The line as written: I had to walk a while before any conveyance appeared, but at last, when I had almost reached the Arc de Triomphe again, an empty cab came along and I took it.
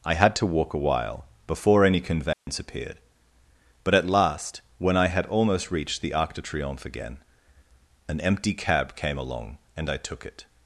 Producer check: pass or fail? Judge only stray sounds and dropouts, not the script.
fail